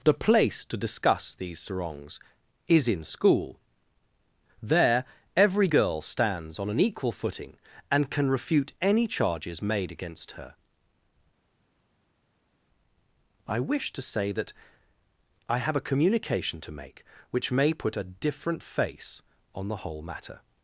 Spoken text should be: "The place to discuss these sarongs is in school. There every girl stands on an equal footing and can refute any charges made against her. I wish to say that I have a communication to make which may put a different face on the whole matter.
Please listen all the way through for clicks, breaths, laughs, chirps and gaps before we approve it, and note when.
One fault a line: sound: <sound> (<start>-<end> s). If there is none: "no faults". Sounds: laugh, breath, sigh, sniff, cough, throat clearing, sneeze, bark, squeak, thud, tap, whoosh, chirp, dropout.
no faults